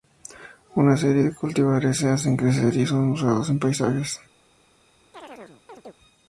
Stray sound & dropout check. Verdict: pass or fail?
fail